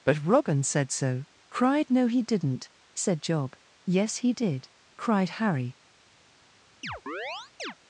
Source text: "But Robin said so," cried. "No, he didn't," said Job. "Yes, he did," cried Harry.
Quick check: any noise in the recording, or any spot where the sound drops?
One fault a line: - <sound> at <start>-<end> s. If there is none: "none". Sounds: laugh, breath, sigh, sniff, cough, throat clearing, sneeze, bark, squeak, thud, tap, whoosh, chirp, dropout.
- chirp at 6.8-7.7 s